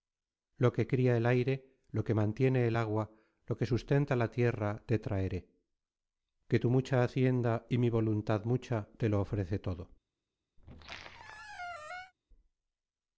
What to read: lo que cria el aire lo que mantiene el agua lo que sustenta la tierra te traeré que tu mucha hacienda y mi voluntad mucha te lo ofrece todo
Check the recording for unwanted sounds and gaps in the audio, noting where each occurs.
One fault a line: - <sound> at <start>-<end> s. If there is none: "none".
- squeak at 10.6-12.1 s